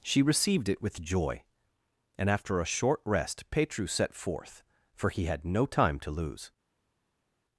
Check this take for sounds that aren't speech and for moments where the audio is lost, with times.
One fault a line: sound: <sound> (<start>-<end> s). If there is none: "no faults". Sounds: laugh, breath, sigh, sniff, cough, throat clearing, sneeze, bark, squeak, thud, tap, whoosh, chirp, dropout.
no faults